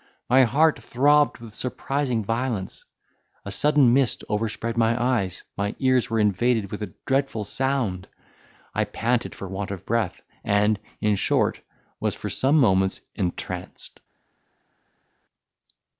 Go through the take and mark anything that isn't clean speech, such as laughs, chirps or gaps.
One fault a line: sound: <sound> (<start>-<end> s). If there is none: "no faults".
no faults